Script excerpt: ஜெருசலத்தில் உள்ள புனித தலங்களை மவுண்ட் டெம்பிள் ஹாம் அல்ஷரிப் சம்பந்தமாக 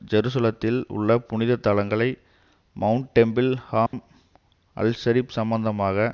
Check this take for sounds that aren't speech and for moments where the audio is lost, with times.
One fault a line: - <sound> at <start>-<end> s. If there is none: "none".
- dropout at 3.9-3.9 s